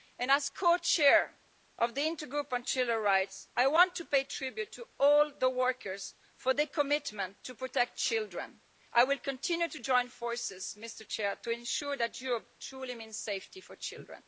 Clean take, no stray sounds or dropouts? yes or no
yes